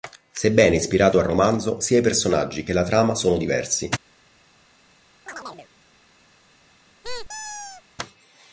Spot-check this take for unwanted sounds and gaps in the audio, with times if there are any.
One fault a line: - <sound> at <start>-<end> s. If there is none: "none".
- chirp at 5.3-5.7 s
- squeak at 7.0-7.8 s